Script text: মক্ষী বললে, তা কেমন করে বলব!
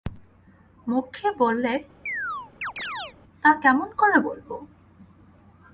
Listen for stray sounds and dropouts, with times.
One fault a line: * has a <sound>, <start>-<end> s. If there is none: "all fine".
* has a chirp, 2.1-3.1 s